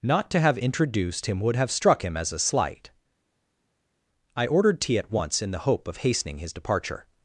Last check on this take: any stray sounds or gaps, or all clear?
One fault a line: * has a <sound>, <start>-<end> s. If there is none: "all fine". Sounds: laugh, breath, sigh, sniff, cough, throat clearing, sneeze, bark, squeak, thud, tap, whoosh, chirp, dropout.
all fine